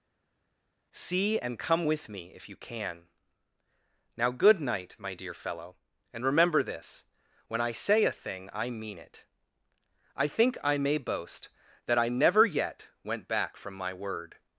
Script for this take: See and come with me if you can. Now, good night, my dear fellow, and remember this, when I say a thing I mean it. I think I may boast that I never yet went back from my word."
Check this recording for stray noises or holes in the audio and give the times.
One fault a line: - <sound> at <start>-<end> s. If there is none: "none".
none